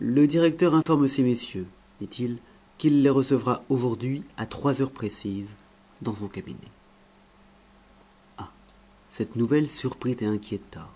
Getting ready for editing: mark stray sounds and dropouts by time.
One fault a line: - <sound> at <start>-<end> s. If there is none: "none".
- dropout at 0.8-0.9 s